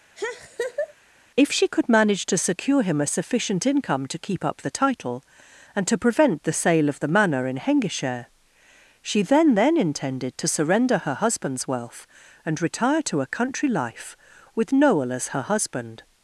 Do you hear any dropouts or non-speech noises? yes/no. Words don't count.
yes